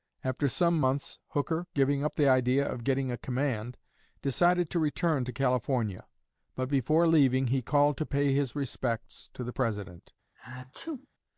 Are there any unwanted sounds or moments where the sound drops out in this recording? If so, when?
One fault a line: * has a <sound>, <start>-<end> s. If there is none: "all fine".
* has a sneeze, 10.4-11.1 s